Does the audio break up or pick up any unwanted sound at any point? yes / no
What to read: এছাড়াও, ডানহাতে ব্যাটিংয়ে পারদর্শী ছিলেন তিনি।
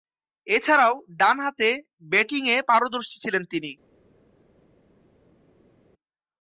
no